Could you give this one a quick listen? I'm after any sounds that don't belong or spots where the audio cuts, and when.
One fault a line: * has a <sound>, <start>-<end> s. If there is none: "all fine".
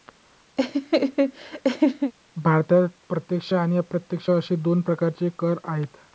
* has a laugh, 0.6-2.1 s